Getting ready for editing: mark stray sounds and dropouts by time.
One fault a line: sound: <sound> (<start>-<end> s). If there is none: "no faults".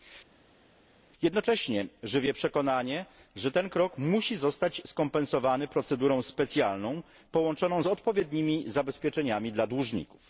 no faults